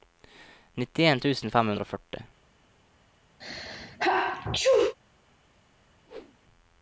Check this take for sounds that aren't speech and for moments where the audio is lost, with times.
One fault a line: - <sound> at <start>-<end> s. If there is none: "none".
- sneeze at 3.4-5.0 s
- whoosh at 6.1-6.4 s